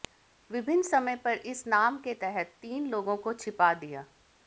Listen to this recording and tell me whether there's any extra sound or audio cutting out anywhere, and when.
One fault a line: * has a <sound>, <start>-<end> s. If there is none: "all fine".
all fine